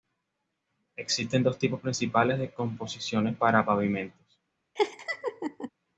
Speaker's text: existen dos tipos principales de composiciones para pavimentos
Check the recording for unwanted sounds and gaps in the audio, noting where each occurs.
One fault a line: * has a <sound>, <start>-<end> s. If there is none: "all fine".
* has a laugh, 4.8-5.7 s